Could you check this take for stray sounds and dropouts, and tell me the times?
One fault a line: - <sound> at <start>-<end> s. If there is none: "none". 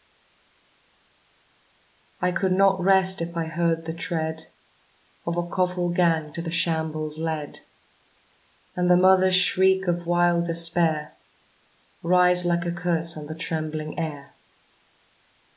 none